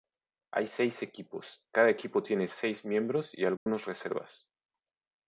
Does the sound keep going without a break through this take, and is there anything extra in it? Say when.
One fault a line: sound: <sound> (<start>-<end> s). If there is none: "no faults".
sound: dropout (3.6-3.7 s)